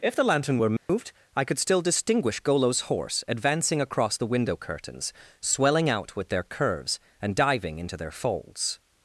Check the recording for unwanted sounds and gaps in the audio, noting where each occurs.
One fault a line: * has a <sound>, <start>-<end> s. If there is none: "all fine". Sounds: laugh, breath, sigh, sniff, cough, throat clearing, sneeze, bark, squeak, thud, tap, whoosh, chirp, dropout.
* has a dropout, 0.8-0.9 s